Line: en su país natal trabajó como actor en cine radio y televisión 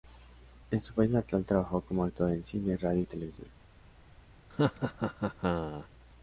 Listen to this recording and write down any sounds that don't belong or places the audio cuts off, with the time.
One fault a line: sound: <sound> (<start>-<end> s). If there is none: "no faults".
sound: laugh (4.5-5.9 s)